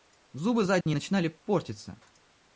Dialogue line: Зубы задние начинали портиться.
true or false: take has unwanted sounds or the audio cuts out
true